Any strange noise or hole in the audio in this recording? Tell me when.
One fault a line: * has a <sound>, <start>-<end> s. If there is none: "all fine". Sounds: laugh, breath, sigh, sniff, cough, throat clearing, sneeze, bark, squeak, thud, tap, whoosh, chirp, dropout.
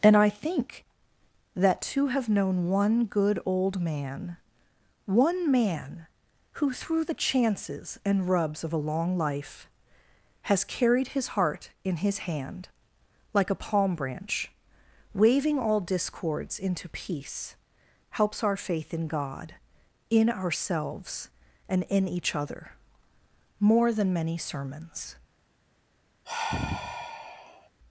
* has a sigh, 26.2-27.7 s